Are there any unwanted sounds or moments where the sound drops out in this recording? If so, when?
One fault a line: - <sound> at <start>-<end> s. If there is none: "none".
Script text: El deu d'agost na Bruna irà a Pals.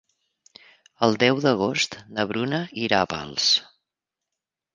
none